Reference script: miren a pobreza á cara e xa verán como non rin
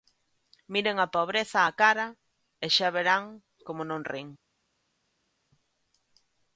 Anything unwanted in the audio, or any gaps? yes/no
no